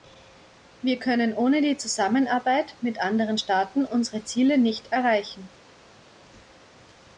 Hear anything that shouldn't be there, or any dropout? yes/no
no